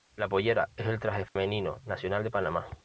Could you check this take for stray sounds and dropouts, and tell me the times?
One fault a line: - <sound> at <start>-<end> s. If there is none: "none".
- dropout at 1.3-1.4 s